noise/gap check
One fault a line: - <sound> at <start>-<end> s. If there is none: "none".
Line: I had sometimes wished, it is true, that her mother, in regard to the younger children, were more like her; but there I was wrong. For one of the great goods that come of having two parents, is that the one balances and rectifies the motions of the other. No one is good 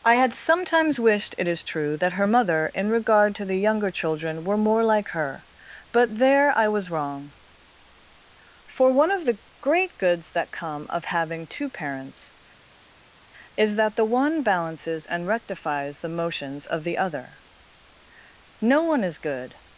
none